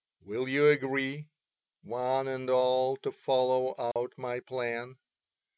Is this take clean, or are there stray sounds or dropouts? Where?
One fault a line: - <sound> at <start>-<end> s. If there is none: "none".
- dropout at 3.9-4.0 s